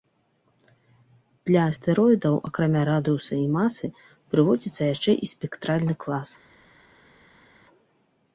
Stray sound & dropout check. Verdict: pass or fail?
pass